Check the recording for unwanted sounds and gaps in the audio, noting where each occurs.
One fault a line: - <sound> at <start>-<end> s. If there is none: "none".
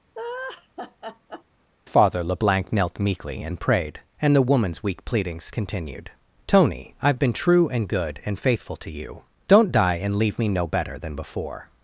- laugh at 0.2-1.4 s